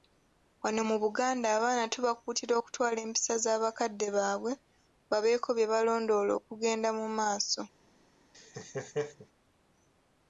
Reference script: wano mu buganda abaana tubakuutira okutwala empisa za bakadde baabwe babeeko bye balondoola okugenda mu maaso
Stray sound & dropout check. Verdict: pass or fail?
fail